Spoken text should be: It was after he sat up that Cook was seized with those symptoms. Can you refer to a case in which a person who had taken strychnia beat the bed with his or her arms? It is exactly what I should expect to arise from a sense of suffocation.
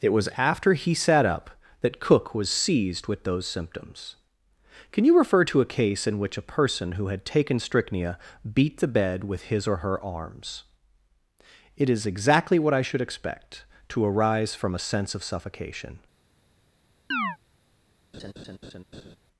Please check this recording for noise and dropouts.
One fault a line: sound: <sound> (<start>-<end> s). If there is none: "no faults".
sound: chirp (17.1-17.4 s)
sound: laugh (18.1-19.2 s)